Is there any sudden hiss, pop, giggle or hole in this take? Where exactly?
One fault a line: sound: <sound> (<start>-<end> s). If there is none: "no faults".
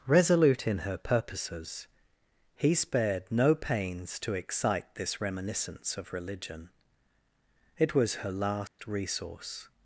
sound: dropout (8.7-8.8 s)